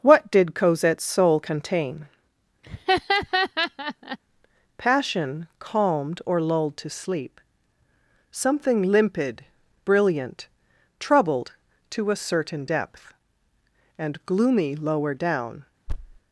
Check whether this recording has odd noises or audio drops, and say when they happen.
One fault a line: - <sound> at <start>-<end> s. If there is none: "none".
- laugh at 2.6-4.2 s
- thud at 15.9-16.2 s